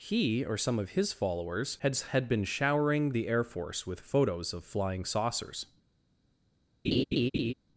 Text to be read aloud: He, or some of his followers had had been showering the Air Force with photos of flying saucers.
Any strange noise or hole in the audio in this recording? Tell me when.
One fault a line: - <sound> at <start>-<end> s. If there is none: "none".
- laugh at 6.8-7.5 s